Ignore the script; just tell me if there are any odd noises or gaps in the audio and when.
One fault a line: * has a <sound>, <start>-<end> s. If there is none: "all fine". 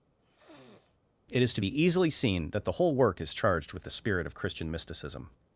* has a sniff, 0.2-1.0 s